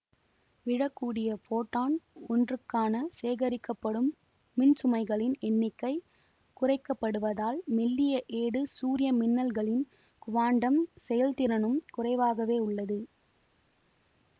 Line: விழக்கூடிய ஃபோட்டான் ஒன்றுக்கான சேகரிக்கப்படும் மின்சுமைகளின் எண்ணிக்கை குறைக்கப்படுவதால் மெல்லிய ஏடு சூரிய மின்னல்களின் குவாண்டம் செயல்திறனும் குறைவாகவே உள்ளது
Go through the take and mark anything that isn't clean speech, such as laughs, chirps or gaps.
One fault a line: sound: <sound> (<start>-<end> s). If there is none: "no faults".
no faults